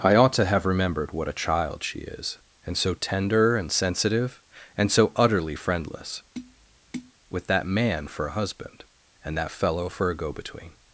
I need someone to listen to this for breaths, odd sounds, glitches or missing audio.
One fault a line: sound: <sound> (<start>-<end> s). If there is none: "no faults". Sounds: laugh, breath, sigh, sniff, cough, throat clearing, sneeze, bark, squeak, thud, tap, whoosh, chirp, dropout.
sound: tap (6.3-7.1 s)